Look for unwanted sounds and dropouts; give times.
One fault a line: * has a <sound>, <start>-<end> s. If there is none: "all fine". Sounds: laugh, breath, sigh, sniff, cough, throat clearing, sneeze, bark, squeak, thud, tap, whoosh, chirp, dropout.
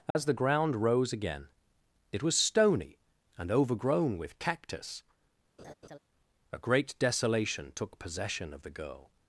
* has a dropout, 0.1-0.2 s
* has a laugh, 5.6-6.0 s